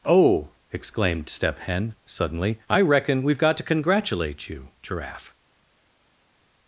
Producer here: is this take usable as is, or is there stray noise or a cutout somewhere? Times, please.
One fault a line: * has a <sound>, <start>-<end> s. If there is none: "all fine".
all fine